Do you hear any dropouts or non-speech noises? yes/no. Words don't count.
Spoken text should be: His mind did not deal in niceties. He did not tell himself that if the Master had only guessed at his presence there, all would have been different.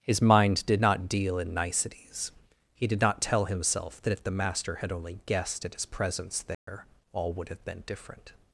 yes